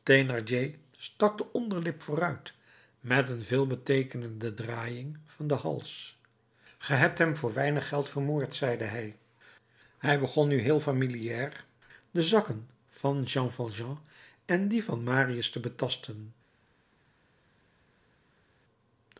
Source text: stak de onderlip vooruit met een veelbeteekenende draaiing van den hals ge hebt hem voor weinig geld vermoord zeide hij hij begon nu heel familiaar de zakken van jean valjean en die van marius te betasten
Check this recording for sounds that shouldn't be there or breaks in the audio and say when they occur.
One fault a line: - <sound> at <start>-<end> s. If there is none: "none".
none